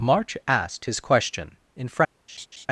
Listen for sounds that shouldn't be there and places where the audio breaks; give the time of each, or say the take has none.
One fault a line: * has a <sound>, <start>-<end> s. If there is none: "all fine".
* has a laugh, 2.3-2.7 s